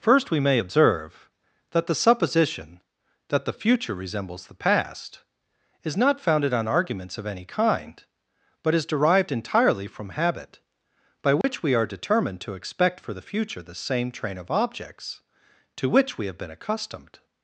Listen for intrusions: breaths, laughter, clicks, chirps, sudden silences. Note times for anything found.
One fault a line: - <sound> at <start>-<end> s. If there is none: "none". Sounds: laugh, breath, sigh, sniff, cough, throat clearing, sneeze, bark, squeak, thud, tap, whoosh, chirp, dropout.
- dropout at 11.4-11.4 s